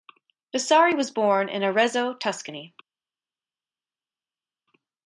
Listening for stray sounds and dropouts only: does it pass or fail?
pass